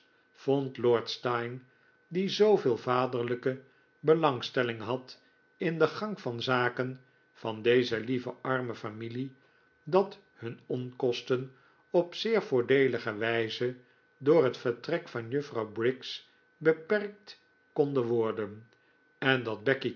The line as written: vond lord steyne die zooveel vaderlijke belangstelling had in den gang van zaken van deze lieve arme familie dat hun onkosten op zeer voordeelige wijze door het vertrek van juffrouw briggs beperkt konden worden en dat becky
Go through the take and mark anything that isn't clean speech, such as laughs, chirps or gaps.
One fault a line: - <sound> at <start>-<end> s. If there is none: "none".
none